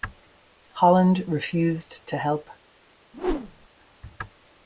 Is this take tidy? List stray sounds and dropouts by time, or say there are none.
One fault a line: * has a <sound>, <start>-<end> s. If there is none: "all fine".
* has a whoosh, 3.1-3.7 s